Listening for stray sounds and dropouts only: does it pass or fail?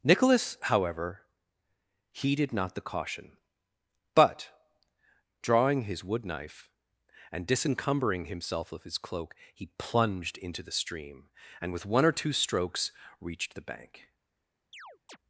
fail